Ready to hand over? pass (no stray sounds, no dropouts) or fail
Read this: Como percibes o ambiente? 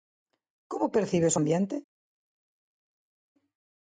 pass